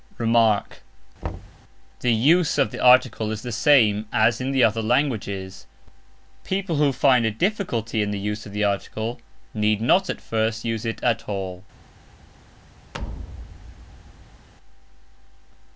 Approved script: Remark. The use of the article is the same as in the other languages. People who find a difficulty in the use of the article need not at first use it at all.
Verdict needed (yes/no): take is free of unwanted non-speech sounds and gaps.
no